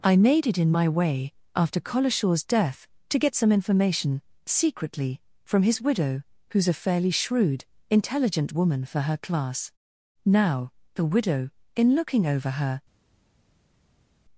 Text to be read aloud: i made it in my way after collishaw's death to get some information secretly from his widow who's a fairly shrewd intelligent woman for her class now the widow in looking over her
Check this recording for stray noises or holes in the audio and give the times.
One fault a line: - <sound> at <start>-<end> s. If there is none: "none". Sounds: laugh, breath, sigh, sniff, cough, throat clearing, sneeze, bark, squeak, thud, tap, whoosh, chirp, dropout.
none